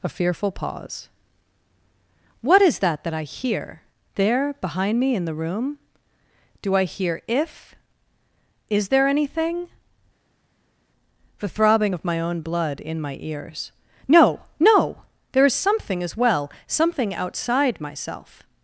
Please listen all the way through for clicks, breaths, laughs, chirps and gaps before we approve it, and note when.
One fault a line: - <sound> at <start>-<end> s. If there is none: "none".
none